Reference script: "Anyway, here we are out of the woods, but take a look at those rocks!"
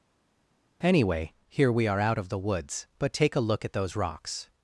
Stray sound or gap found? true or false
false